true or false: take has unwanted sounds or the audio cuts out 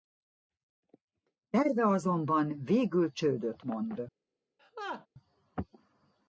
true